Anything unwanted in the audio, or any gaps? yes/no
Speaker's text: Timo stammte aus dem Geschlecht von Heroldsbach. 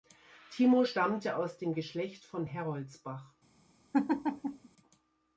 yes